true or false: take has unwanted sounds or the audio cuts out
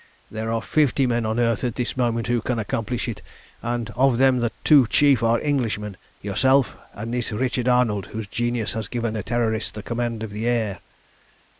false